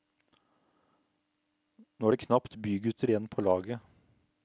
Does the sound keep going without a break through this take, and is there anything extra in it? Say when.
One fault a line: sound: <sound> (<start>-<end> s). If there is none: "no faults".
no faults